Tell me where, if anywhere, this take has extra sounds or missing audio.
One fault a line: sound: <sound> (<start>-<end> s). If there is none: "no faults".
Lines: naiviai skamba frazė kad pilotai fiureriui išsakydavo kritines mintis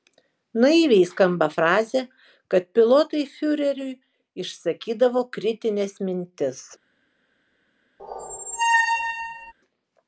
sound: squeak (8.0-9.5 s)